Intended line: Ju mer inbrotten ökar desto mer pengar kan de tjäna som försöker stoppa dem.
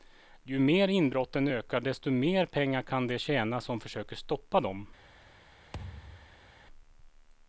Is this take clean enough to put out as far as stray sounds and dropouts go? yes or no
no